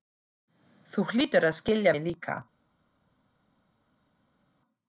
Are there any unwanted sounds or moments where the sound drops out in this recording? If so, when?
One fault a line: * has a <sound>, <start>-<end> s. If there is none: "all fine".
all fine